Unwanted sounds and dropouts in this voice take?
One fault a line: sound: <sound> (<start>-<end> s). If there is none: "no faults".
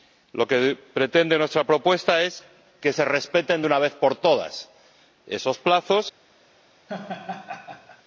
sound: laugh (6.9-8.0 s)